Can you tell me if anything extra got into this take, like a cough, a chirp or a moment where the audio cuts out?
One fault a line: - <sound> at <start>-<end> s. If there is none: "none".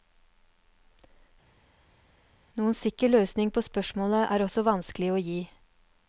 none